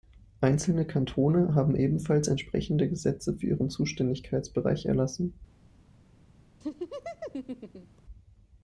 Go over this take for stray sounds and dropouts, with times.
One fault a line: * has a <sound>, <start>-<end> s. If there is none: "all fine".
* has a laugh, 6.6-8.0 s